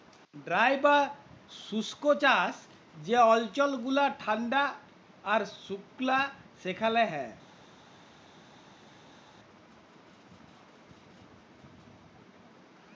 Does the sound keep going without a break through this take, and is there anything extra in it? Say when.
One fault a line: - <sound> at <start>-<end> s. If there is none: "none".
none